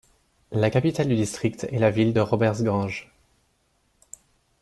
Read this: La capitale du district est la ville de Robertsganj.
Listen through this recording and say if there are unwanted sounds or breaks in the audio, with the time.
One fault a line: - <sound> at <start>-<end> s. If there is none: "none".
none